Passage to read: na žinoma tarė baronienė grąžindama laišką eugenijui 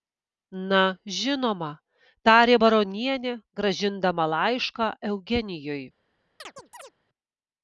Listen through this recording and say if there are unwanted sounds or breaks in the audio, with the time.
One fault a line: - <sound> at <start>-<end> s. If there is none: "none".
- chirp at 6.4-6.9 s